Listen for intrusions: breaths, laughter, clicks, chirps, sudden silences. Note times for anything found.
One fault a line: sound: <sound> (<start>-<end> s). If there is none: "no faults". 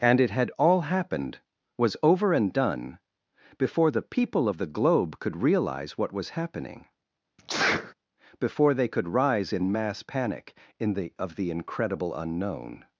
sound: sneeze (7.4-7.9 s)